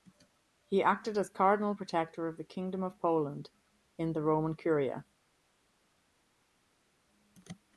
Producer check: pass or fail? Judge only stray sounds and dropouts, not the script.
pass